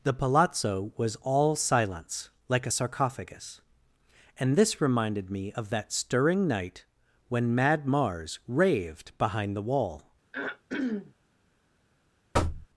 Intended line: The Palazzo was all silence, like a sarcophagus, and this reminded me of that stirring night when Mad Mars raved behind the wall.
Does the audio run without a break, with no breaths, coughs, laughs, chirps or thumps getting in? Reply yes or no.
no